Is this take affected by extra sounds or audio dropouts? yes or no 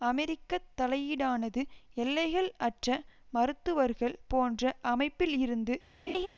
yes